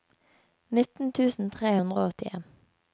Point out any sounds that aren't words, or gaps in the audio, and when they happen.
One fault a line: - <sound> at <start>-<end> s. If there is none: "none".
none